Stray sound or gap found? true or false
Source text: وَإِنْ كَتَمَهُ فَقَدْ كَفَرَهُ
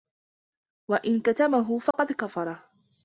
true